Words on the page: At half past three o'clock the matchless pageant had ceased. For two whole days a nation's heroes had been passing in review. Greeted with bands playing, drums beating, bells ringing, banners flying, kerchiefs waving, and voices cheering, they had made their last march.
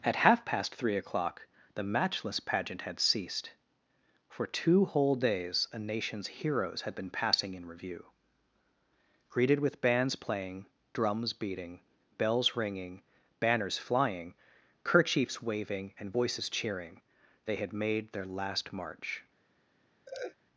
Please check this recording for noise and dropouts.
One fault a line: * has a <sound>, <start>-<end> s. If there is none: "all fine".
* has a laugh, 20.1-20.4 s